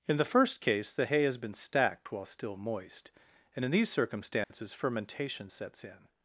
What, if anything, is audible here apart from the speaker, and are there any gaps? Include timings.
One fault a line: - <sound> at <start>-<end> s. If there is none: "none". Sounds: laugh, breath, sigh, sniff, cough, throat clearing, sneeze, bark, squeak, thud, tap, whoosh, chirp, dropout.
- dropout at 4.4-4.5 s